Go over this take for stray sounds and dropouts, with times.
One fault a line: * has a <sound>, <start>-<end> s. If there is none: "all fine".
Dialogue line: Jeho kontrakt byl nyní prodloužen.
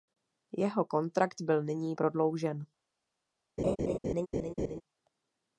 * has a laugh, 3.6-4.8 s